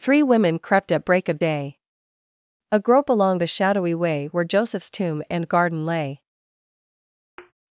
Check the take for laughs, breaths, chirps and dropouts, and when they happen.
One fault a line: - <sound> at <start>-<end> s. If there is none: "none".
- thud at 7.4-7.5 s